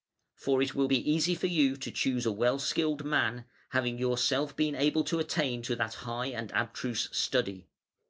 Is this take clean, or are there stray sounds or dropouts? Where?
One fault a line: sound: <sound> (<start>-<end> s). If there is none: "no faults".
no faults